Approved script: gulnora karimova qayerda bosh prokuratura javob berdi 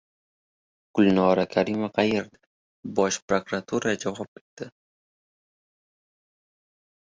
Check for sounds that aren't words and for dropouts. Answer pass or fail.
pass